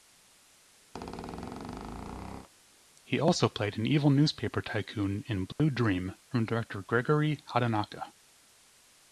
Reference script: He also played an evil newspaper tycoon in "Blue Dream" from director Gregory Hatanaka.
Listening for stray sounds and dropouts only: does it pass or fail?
fail